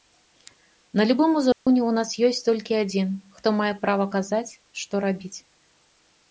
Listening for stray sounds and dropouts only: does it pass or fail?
fail